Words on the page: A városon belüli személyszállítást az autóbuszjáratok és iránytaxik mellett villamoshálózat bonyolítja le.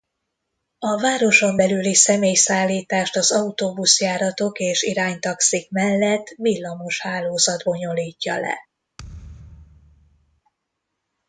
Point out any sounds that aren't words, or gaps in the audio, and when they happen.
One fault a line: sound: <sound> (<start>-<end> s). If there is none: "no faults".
sound: thud (9.0-10.4 s)